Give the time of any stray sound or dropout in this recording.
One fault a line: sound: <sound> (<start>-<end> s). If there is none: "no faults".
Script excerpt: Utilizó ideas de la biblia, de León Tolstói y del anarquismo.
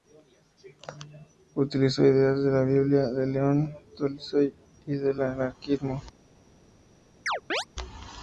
sound: chirp (7.3-7.7 s)